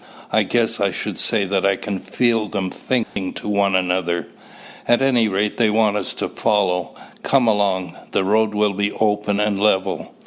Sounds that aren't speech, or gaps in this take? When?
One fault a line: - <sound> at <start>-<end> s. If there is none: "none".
- dropout at 3.0-3.2 s